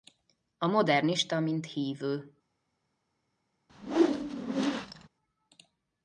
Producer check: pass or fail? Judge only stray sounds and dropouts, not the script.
fail